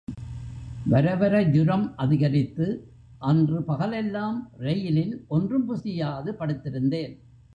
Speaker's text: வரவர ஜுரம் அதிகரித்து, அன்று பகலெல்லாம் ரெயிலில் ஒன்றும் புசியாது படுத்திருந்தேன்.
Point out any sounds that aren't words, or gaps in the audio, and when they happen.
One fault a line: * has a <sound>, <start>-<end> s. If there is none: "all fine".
all fine